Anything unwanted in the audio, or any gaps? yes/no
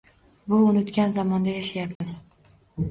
yes